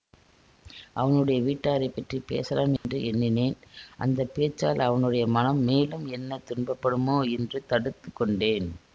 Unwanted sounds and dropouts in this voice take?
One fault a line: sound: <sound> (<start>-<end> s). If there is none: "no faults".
sound: dropout (2.8-2.8 s)